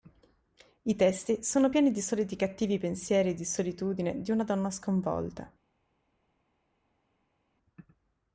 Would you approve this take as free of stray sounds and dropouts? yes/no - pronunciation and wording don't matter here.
yes